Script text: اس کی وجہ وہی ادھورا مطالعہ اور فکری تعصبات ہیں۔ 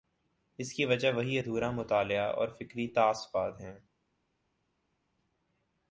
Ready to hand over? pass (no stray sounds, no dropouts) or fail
pass